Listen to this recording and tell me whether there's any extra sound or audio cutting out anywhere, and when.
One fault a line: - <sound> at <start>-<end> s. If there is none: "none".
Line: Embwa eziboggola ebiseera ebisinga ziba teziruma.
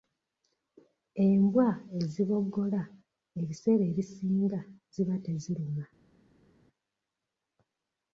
none